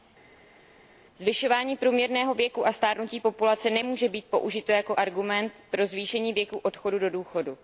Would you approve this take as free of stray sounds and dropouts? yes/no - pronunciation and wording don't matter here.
yes